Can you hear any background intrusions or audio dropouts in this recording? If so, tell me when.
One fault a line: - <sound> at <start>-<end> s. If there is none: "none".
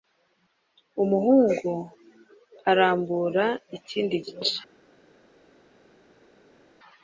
none